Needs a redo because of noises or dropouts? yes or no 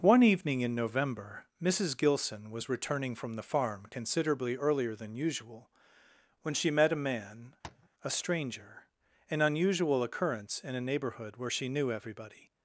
yes